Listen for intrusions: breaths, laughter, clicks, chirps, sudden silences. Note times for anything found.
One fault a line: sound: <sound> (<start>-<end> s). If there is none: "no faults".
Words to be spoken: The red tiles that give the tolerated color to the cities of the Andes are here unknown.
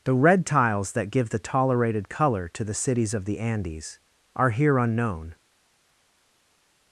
no faults